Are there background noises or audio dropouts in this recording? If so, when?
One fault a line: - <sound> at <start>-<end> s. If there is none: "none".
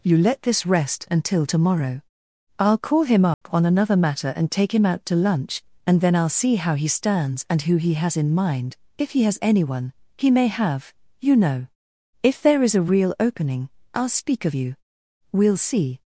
- dropout at 3.3-3.4 s